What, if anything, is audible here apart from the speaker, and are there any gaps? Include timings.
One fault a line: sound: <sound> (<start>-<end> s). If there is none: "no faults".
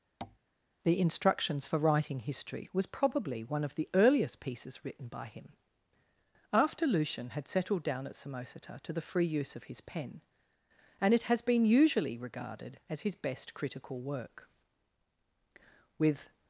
sound: tap (0.2-0.4 s)